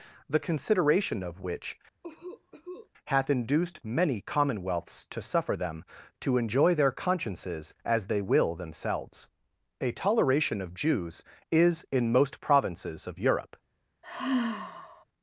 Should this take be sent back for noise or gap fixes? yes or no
yes